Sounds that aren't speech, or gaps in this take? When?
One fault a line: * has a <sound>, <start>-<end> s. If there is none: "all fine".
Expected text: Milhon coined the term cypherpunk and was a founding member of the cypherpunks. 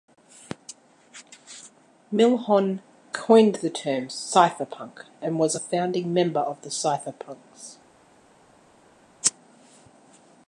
all fine